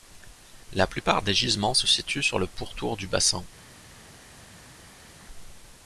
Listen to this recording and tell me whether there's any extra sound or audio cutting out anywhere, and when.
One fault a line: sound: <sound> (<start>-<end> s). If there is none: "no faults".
no faults